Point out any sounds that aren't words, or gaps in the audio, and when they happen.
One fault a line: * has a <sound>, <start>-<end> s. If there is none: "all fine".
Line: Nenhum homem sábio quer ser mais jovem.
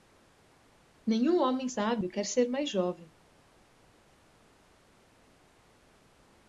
all fine